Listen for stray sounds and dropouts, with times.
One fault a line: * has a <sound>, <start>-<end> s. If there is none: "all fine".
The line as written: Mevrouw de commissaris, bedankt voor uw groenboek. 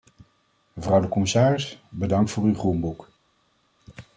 all fine